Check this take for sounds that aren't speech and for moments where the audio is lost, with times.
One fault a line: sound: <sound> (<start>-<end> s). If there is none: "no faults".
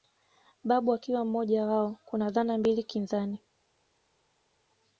no faults